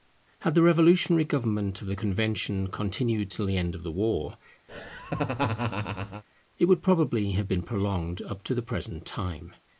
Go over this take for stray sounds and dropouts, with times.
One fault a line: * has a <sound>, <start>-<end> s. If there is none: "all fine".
* has a laugh, 4.7-6.2 s